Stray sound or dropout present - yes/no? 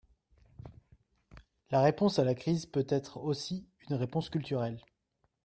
no